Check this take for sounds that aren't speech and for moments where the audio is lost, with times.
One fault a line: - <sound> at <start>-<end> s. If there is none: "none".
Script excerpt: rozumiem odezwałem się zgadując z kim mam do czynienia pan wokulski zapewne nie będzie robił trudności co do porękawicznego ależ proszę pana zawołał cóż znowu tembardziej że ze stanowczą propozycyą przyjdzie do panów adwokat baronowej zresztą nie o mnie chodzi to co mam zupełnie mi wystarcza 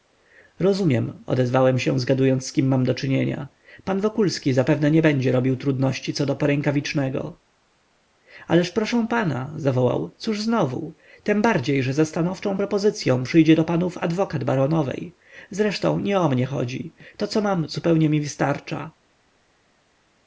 none